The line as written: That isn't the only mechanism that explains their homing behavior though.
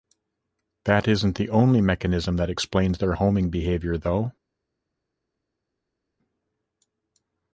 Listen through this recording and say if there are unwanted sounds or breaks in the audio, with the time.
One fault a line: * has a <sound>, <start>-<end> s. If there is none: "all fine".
all fine